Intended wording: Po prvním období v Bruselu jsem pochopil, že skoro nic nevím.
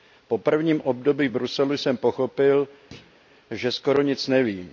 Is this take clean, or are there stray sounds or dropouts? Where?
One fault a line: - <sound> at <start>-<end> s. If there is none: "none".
- thud at 2.9-3.2 s